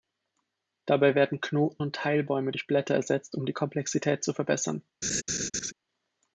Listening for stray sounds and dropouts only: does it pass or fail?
fail